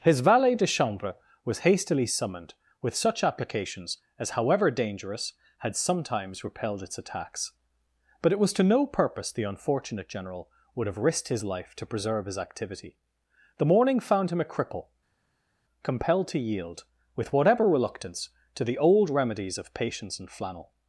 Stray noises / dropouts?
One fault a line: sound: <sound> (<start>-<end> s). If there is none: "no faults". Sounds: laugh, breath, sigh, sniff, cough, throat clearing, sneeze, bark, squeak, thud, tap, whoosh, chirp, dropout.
no faults